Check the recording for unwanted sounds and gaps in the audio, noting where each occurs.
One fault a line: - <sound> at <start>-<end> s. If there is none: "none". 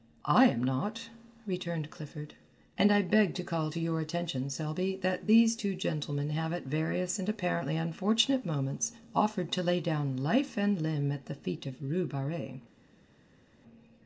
none